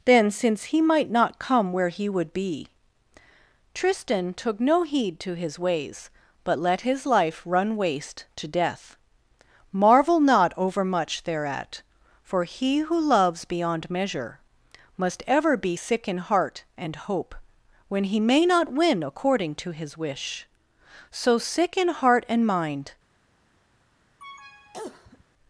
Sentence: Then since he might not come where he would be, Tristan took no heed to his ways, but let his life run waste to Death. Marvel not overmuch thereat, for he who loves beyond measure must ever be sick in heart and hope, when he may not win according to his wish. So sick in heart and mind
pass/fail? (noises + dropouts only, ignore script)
fail